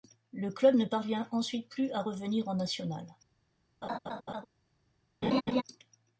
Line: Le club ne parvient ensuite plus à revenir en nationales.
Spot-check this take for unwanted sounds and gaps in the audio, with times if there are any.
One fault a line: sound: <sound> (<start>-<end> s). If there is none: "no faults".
sound: laugh (3.8-4.5 s)
sound: laugh (5.2-5.6 s)